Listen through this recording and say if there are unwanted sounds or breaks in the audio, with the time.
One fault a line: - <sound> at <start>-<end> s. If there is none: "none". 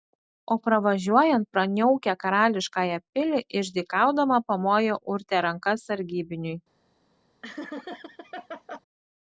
- laugh at 7.4-8.8 s